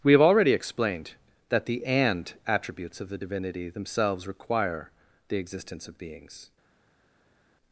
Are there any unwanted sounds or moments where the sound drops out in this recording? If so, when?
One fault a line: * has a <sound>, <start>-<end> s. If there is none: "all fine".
all fine